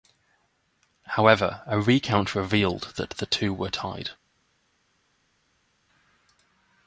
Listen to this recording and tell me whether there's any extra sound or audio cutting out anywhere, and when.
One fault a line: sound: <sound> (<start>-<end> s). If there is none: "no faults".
no faults